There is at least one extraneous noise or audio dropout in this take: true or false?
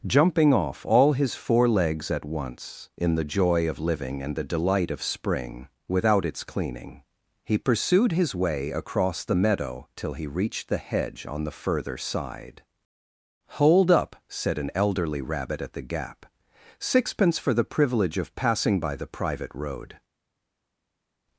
false